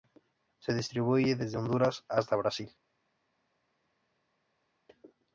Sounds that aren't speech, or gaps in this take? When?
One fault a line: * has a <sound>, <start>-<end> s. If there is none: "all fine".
all fine